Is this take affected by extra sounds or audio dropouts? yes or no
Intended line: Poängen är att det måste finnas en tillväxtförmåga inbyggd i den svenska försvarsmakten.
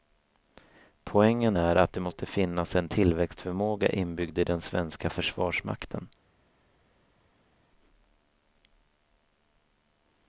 no